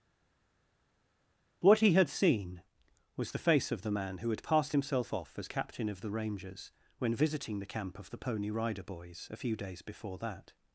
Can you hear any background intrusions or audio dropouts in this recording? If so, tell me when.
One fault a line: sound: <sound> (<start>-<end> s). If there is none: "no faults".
no faults